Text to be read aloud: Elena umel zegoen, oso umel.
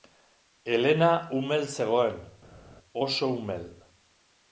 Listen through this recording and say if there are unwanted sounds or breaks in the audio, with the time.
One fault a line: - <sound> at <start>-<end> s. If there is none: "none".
none